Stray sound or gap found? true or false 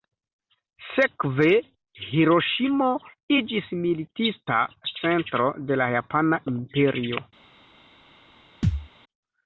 true